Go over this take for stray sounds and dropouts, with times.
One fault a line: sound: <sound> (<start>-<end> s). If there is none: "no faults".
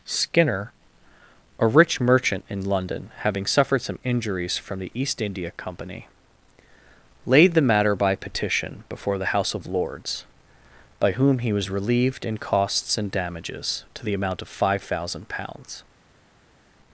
no faults